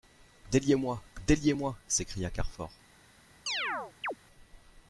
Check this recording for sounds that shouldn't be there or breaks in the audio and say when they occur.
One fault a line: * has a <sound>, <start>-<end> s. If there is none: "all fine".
* has a chirp, 3.5-4.2 s